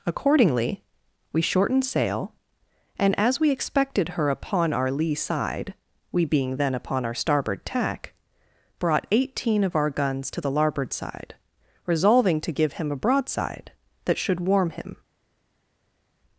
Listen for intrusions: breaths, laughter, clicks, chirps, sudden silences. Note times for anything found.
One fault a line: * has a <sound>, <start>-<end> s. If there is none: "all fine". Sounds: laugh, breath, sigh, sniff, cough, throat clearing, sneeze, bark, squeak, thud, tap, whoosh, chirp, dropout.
all fine